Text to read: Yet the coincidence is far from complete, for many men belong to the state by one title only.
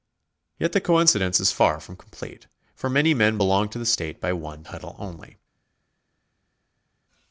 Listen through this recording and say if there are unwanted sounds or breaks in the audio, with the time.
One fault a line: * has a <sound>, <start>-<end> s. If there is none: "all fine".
all fine